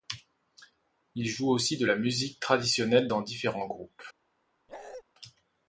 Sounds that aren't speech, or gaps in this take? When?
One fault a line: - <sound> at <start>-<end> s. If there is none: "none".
- bark at 4.7-5.0 s